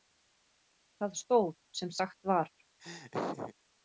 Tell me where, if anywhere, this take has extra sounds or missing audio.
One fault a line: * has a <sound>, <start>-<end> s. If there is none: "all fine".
* has a laugh, 2.8-3.5 s